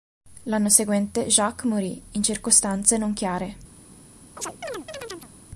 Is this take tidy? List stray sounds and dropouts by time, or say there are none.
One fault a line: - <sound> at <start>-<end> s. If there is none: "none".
- chirp at 4.4-5.3 s